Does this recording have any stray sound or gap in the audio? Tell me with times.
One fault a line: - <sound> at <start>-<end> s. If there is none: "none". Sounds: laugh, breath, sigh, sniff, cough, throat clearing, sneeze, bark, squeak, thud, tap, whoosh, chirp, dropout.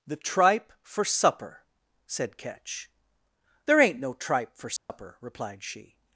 - dropout at 4.8-4.9 s